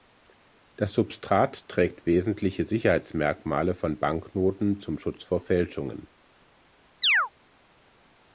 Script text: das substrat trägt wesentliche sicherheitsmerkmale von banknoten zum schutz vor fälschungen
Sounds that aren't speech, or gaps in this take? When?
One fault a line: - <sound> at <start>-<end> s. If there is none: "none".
- chirp at 7.0-7.3 s